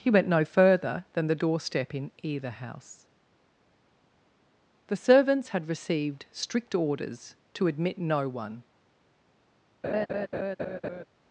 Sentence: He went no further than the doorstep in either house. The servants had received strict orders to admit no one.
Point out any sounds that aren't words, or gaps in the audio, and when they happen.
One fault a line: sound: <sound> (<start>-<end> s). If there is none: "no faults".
sound: laugh (9.8-11.0 s)